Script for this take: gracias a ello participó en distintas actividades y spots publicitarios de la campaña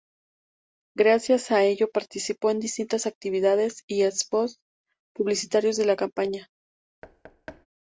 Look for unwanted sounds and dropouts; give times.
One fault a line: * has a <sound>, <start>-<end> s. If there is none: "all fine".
* has a thud, 7.0-7.7 s